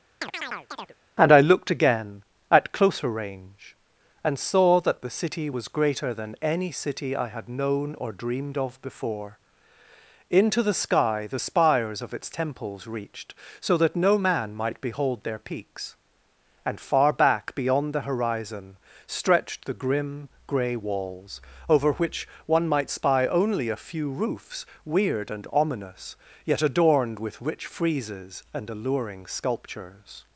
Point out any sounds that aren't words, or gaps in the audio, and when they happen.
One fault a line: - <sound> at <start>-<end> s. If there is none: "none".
- chirp at 0.2-1.0 s